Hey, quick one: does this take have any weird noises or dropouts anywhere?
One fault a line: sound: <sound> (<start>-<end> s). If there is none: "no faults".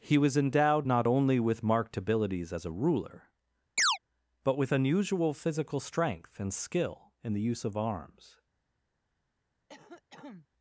sound: chirp (3.8-4.0 s)
sound: cough (9.7-10.5 s)